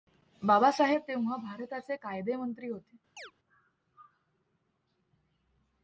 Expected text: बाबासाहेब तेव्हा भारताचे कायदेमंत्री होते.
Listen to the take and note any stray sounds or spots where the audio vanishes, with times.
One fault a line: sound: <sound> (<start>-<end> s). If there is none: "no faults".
sound: chirp (3.2-3.3 s)